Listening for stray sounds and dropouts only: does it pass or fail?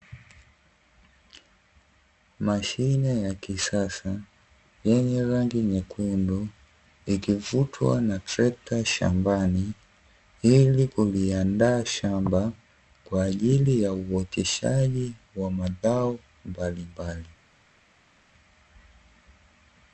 pass